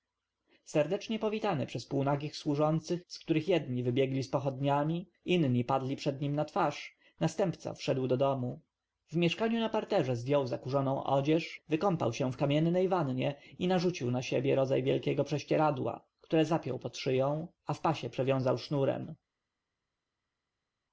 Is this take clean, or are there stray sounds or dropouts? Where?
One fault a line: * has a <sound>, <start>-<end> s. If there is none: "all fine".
all fine